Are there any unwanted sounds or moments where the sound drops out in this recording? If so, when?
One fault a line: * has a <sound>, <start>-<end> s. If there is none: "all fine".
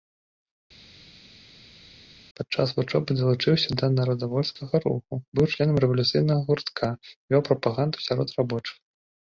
all fine